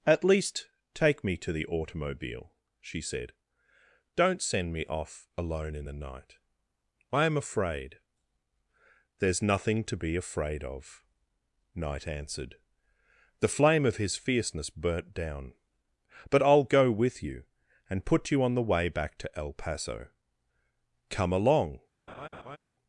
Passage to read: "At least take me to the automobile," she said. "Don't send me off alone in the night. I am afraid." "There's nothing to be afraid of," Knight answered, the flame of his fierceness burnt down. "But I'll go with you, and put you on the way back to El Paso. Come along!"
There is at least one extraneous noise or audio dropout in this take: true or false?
true